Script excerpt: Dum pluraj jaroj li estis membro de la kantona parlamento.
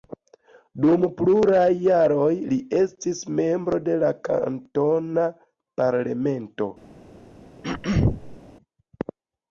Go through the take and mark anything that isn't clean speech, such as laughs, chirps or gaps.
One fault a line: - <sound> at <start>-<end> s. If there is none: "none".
- throat clearing at 7.6-8.4 s